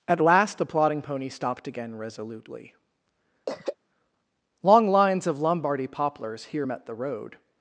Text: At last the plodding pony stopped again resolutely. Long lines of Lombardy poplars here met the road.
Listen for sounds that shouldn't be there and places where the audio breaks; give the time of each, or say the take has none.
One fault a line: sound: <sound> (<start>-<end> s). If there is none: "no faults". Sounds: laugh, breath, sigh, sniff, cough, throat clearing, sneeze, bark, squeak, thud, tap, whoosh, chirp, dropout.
sound: throat clearing (3.5-3.8 s)